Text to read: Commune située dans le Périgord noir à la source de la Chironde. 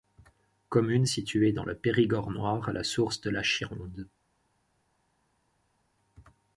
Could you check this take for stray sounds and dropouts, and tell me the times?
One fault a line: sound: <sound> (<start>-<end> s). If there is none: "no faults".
no faults